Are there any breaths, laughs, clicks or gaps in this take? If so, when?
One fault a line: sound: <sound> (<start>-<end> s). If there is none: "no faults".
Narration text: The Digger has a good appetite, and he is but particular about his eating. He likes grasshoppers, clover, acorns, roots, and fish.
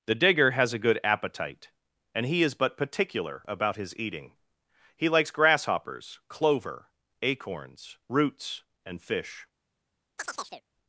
sound: chirp (10.2-10.6 s)